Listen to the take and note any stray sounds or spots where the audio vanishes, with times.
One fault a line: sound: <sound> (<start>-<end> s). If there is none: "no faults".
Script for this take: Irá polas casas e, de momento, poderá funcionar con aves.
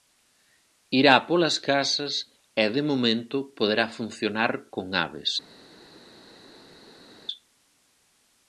no faults